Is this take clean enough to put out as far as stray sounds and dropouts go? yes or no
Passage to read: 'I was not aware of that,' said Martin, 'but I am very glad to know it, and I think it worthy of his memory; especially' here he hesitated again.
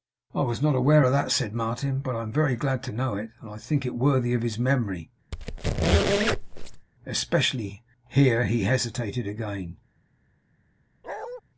no